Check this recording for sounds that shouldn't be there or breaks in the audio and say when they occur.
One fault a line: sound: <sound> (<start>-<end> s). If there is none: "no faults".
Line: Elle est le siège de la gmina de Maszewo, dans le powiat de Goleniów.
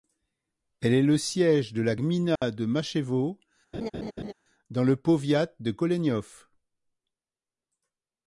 sound: dropout (2.4-2.4 s)
sound: laugh (3.7-4.3 s)